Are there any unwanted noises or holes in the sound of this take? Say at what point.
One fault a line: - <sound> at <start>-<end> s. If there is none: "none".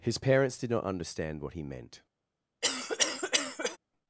- cough at 2.6-3.8 s